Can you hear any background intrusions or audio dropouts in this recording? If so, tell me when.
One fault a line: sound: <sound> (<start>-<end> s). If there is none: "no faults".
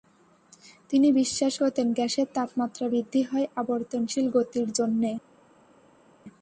no faults